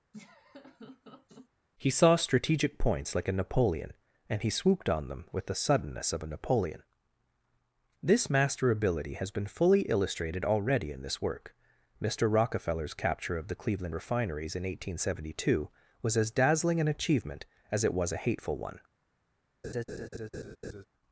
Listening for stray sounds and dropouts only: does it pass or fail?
fail